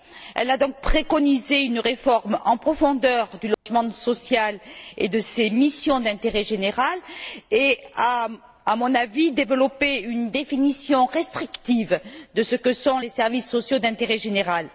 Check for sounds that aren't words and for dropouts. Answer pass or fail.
fail